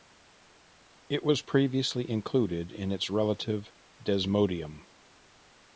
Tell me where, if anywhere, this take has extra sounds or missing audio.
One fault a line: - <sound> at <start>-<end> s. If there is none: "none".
none